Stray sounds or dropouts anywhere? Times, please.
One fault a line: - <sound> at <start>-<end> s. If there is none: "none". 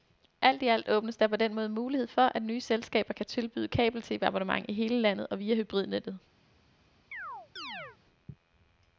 - chirp at 7.1-8.0 s